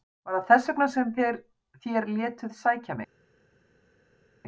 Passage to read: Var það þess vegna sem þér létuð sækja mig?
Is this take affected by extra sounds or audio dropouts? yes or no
no